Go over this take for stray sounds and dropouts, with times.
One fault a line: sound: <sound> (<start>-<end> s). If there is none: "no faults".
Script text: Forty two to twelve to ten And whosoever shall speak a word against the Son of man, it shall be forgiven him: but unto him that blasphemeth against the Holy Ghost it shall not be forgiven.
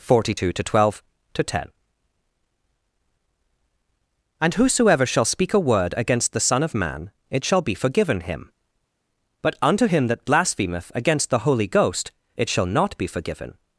no faults